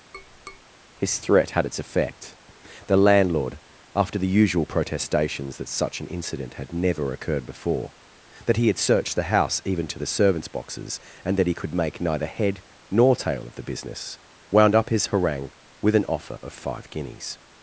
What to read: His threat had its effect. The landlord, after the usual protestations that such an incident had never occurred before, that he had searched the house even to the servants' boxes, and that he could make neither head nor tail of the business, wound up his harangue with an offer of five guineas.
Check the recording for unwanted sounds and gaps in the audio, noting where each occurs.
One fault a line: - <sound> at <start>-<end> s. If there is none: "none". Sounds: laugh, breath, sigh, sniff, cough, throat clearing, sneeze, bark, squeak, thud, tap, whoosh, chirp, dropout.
- tap at 0.1-0.6 s